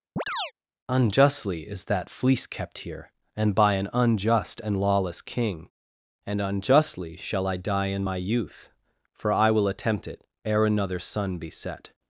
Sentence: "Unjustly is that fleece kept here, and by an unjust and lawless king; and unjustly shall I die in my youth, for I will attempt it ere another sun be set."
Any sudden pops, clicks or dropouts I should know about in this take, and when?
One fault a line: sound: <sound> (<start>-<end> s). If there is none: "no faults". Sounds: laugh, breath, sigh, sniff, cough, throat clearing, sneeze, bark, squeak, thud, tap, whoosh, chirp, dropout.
sound: chirp (0.2-0.5 s)